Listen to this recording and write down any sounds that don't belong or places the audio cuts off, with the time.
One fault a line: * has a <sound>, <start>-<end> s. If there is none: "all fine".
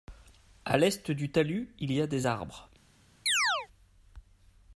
* has a chirp, 3.3-3.7 s